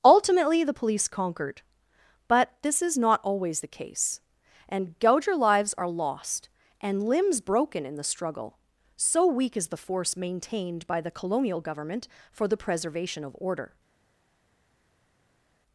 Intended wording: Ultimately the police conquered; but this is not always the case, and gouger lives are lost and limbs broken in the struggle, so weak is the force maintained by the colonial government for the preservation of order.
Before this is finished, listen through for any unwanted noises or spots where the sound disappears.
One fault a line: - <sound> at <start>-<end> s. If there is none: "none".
none